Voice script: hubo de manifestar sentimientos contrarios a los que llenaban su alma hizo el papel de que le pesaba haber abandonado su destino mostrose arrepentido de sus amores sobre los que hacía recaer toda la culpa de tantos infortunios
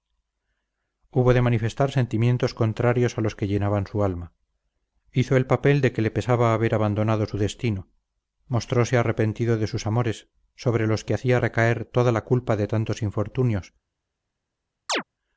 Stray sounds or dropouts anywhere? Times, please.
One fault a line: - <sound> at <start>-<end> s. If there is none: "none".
- chirp at 14.9-15.0 s